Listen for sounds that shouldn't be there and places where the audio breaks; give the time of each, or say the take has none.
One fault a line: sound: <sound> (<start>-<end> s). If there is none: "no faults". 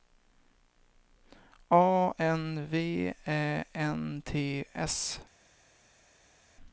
no faults